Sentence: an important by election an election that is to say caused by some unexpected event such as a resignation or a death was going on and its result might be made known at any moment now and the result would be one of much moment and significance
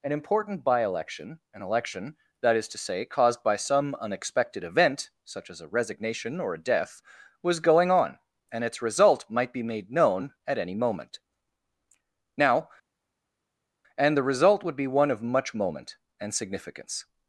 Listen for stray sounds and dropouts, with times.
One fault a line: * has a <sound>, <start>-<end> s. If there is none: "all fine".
all fine